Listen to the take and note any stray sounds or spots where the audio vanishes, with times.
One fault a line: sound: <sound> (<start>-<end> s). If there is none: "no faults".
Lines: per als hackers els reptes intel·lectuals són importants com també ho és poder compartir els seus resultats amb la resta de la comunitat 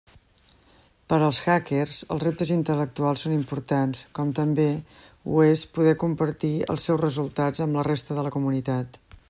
no faults